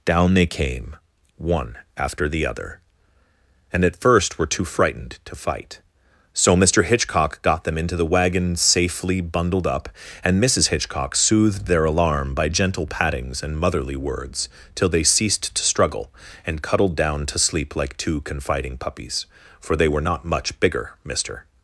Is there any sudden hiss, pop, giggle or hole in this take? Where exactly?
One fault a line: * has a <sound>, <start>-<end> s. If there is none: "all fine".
all fine